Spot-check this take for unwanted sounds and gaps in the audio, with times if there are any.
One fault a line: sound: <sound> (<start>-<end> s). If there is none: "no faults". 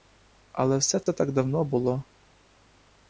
sound: dropout (1.0-1.1 s)